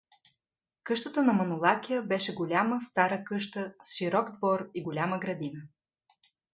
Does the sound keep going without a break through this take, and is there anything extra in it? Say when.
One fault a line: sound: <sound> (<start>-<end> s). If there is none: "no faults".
no faults